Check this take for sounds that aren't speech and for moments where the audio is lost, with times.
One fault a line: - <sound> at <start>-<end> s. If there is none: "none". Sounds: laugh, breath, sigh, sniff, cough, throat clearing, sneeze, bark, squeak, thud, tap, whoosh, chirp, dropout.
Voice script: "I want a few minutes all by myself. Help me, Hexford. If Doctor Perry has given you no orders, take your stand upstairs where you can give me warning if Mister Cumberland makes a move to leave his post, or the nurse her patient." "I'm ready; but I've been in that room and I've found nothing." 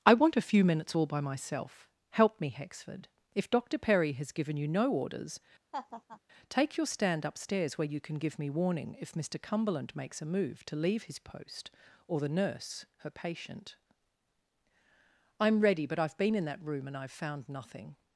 - laugh at 5.7-6.2 s